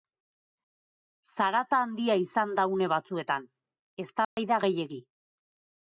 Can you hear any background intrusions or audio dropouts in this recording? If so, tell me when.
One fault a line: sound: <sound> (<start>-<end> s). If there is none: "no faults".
sound: dropout (4.2-4.4 s)